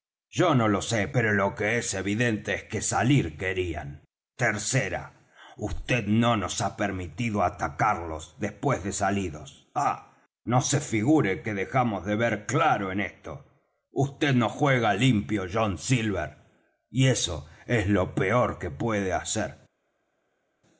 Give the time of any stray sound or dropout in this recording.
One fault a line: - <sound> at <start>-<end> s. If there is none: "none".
none